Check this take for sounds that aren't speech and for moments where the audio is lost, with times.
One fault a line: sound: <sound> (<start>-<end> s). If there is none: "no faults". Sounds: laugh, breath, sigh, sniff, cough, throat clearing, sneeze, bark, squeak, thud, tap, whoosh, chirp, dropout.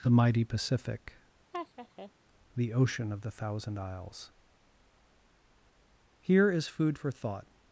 sound: laugh (1.5-2.1 s)